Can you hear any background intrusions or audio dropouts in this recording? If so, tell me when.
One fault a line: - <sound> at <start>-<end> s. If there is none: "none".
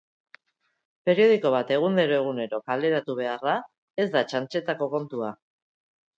none